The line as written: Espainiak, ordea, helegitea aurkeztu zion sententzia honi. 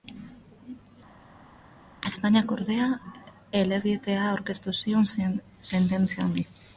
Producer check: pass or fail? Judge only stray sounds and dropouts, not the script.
pass